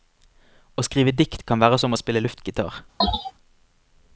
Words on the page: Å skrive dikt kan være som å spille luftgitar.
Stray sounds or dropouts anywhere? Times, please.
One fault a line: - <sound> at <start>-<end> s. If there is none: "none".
- sneeze at 3.0-3.3 s